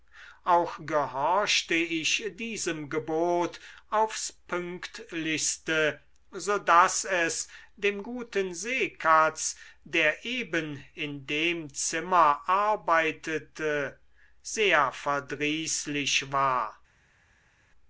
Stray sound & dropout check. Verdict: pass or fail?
pass